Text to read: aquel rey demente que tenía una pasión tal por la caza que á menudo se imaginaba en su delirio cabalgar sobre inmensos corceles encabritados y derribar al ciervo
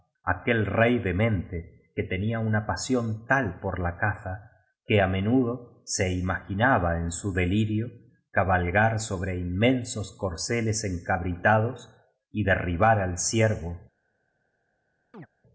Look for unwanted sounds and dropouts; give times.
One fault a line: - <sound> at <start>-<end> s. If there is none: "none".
- chirp at 15.1-15.3 s